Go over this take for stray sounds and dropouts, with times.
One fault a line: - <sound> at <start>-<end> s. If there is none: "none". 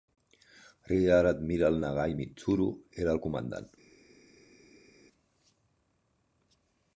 none